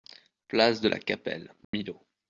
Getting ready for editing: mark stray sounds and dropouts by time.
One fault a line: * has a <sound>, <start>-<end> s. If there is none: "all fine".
* has a dropout, 1.6-1.7 s